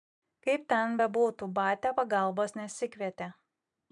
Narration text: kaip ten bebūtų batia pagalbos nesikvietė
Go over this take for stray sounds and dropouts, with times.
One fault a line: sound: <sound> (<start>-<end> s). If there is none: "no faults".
no faults